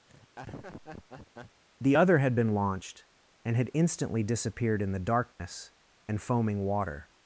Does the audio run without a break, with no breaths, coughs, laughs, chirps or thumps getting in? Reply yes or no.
no